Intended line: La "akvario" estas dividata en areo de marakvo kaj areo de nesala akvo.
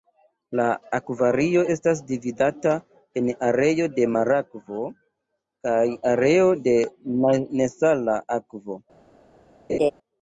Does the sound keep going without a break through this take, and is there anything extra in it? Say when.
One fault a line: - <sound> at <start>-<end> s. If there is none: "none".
- laugh at 9.7-9.9 s